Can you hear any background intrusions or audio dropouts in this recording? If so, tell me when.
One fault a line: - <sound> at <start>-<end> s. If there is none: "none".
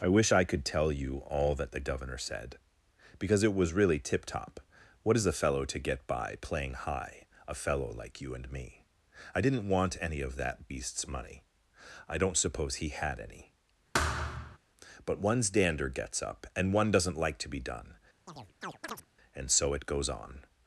- thud at 13.9-14.6 s
- chirp at 18.3-19.1 s